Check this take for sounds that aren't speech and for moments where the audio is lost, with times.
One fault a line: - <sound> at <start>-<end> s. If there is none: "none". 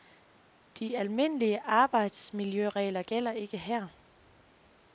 none